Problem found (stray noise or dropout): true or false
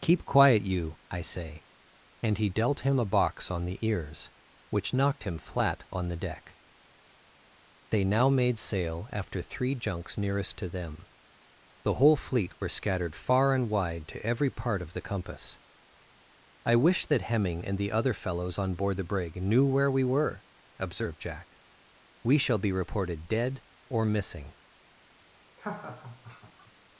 true